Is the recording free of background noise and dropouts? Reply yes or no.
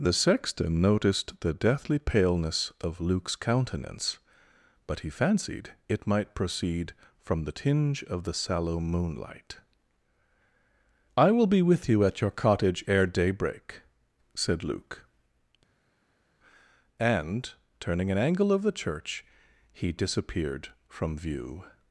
yes